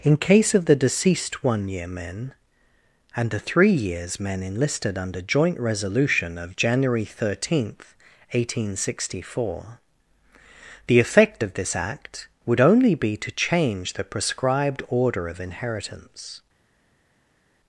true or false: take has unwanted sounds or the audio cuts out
false